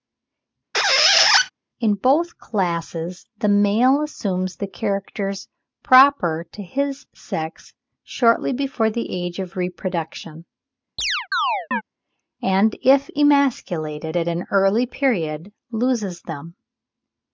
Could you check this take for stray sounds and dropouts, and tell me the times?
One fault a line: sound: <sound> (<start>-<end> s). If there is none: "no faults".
sound: squeak (0.7-1.5 s)
sound: chirp (11.0-11.8 s)